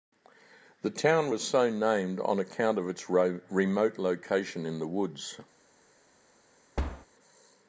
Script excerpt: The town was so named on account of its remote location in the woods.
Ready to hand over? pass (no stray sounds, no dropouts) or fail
fail